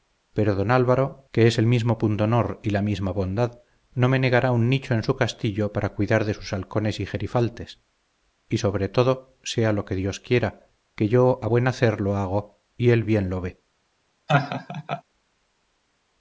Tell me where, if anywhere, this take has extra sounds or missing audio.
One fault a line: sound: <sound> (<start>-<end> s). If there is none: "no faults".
sound: laugh (14.3-15.0 s)